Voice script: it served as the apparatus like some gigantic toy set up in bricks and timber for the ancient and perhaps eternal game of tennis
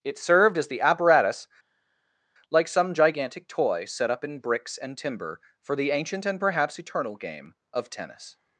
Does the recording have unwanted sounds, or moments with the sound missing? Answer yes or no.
no